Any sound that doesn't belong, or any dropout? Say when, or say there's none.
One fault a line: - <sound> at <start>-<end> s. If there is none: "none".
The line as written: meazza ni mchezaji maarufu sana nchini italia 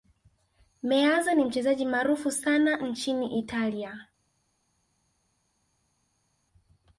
none